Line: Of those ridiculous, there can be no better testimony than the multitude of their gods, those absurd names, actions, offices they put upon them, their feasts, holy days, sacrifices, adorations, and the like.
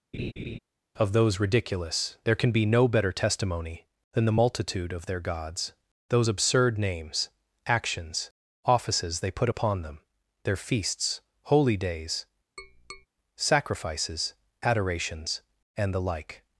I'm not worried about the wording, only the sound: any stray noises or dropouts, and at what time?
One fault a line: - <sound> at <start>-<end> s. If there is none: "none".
- laugh at 0.1-0.6 s
- tap at 12.6-13.1 s